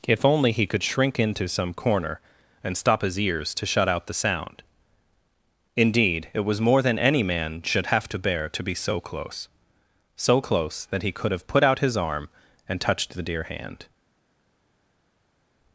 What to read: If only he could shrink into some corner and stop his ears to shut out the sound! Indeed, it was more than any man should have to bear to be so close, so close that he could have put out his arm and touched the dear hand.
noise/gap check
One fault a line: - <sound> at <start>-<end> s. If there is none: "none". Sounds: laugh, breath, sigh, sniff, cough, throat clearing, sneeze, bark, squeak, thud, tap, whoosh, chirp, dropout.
none